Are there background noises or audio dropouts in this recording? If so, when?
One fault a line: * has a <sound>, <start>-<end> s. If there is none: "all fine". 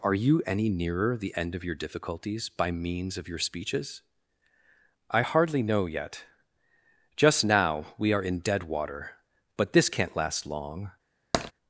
* has a tap, 11.3-11.5 s